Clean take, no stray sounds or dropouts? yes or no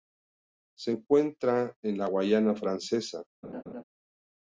no